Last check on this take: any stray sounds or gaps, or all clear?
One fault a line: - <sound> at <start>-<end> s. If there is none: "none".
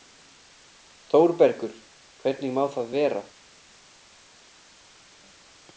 none